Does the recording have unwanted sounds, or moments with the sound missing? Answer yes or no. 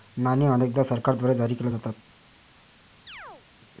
yes